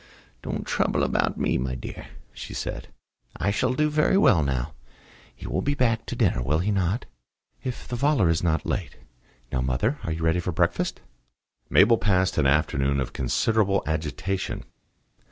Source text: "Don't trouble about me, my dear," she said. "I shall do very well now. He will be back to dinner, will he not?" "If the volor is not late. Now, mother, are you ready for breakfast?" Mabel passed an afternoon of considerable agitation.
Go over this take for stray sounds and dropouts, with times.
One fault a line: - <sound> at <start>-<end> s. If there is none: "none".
none